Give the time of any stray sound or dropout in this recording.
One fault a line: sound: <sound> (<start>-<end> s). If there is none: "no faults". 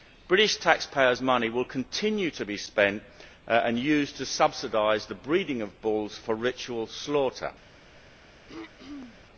sound: throat clearing (8.5-9.2 s)